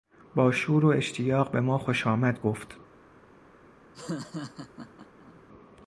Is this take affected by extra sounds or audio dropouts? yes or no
yes